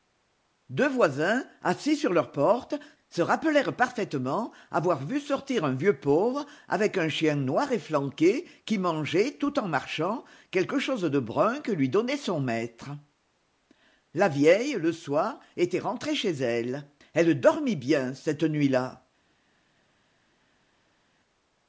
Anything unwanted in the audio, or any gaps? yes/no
no